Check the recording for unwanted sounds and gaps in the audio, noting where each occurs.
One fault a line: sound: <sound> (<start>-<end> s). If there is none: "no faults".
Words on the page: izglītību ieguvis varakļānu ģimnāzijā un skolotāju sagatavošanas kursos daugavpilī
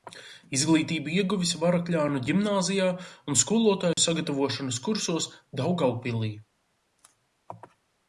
sound: dropout (3.9-4.0 s)